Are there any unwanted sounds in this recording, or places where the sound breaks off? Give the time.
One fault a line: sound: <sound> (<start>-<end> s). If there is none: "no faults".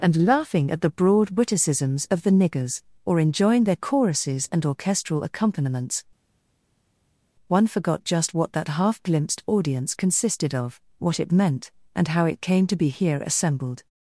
no faults